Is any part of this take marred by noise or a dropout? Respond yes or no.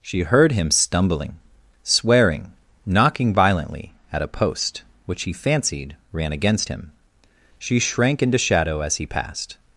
no